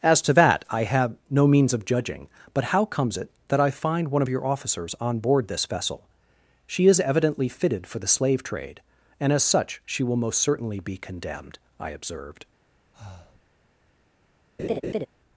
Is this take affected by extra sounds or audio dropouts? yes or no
yes